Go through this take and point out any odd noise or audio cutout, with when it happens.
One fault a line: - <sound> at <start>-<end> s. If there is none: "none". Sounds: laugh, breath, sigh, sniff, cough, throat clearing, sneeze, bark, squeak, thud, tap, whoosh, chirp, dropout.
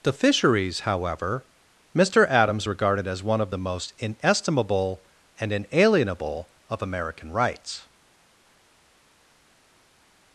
none